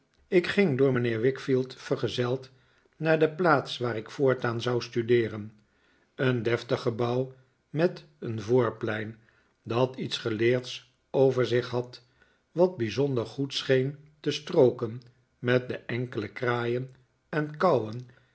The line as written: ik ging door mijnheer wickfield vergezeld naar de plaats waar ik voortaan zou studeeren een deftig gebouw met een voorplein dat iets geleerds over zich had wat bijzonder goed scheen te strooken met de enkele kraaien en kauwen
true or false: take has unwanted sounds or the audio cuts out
false